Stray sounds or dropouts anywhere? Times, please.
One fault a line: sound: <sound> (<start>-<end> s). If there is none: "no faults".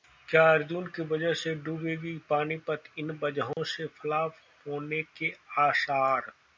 sound: dropout (3.5-3.6 s)